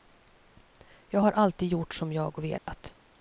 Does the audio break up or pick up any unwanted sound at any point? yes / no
yes